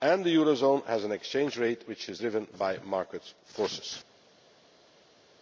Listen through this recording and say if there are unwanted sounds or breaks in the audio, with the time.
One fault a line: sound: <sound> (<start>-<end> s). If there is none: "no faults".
no faults